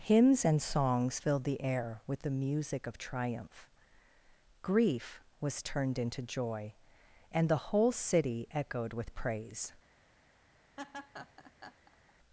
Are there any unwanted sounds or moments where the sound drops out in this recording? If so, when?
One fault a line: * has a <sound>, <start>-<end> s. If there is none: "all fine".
* has a laugh, 10.8-12.1 s